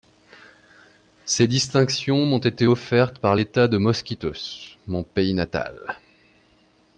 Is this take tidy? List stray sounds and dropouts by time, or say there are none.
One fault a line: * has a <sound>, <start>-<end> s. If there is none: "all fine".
all fine